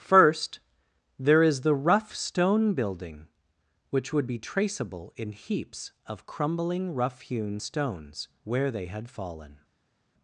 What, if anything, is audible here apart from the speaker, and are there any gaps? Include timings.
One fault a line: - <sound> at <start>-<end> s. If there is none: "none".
none